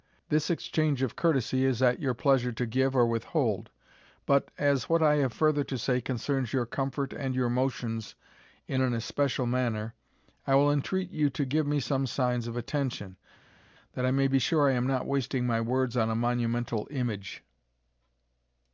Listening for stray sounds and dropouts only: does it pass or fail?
pass